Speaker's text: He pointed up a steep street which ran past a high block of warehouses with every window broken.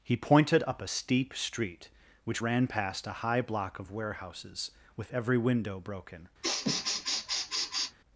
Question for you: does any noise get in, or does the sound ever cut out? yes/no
yes